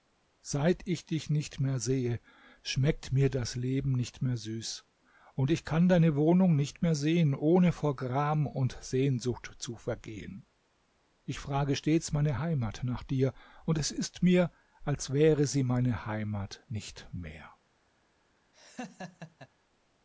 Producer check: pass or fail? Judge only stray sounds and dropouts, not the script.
fail